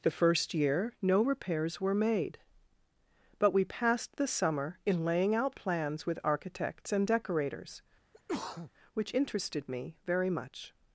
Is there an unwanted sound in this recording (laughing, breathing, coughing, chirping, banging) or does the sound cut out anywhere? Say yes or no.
yes